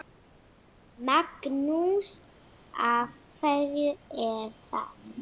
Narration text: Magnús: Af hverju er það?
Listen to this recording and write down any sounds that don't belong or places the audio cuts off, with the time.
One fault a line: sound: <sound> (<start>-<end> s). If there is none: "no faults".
no faults